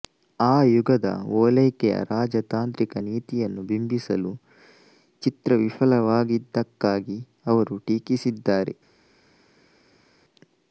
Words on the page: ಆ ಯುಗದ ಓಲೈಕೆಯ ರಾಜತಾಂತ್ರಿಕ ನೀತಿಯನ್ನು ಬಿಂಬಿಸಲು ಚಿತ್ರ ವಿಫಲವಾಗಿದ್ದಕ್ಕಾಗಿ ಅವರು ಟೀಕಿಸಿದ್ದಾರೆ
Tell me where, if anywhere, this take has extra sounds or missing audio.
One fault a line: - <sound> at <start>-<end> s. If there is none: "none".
none